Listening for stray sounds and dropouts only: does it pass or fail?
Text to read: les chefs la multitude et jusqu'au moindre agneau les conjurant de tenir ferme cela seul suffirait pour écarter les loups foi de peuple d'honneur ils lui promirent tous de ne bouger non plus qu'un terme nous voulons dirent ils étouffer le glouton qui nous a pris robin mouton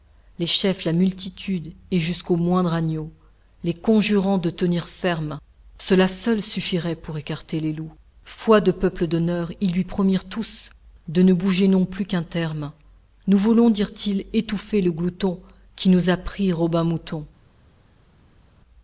pass